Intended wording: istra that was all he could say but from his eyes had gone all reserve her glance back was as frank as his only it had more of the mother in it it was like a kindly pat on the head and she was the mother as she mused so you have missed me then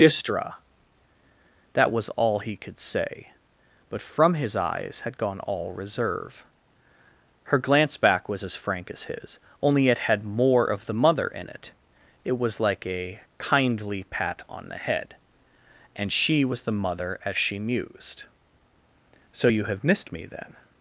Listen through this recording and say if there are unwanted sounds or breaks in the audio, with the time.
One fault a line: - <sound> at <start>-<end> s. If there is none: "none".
none